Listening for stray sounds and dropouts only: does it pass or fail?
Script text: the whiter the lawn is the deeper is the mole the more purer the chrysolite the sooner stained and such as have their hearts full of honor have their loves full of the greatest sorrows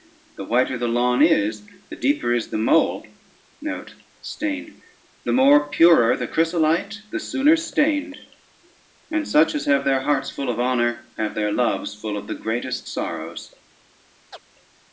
fail